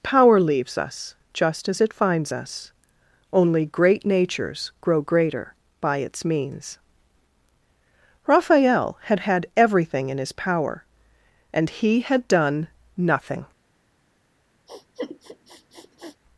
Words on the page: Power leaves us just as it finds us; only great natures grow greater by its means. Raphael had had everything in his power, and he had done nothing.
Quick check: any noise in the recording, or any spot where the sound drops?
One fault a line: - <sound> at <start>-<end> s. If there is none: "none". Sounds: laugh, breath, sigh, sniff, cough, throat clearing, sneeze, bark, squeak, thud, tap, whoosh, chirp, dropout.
- sniff at 14.7-16.2 s